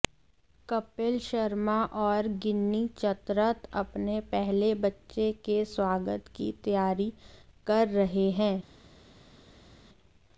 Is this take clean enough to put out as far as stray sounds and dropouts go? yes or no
yes